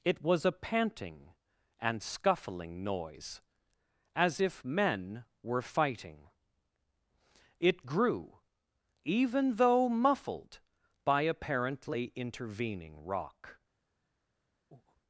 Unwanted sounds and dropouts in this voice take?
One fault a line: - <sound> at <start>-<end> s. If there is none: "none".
- breath at 14.7-15.0 s